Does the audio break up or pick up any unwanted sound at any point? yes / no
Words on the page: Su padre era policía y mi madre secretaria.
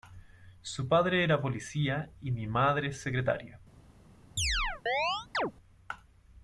yes